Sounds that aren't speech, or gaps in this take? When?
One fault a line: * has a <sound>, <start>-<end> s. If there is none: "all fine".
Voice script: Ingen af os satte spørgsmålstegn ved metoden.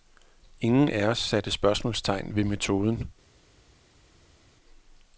all fine